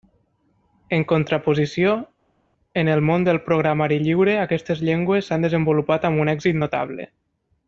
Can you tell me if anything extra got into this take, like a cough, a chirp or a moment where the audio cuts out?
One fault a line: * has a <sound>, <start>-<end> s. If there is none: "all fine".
all fine